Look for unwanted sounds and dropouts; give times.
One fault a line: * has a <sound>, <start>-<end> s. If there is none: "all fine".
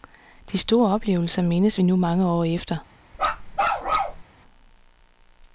* has a bark, 3.1-4.2 s